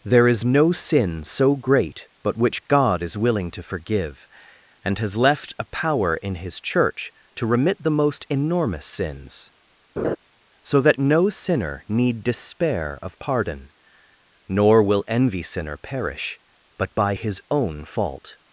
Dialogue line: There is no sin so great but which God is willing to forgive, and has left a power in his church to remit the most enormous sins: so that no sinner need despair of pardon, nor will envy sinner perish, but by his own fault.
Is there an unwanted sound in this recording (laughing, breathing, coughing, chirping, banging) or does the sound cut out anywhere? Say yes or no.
yes